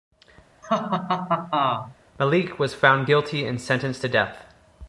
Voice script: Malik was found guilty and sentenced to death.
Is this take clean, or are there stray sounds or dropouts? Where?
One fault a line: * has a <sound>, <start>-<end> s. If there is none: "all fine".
* has a laugh, 0.6-2.0 s